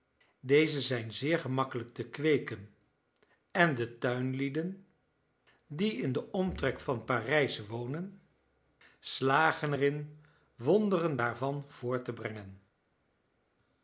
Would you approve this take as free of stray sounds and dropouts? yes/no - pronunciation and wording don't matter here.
yes